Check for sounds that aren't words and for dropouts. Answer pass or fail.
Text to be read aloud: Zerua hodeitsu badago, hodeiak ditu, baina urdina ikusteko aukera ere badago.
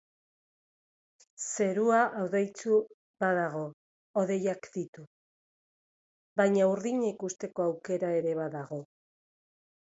pass